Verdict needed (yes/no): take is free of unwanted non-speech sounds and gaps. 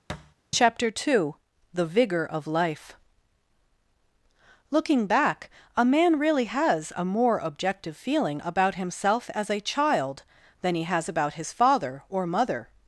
no